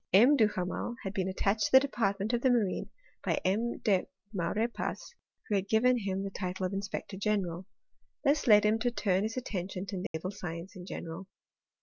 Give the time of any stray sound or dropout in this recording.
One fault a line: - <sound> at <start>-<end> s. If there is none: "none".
- dropout at 10.1-10.1 s